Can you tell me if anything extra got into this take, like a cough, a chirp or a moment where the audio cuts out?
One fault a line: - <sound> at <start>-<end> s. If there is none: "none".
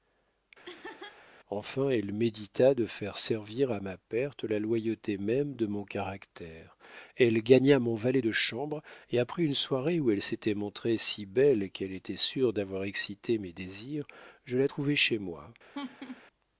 - laugh at 0.6-1.2 s
- laugh at 15.7-16.2 s